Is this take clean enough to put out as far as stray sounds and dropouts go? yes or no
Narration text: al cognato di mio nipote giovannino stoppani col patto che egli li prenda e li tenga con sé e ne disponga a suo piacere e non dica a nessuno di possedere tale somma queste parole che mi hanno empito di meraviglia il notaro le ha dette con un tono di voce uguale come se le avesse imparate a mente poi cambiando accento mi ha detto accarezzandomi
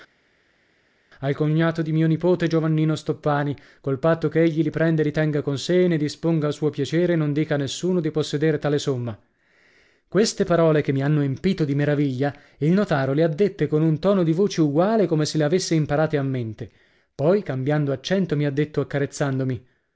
yes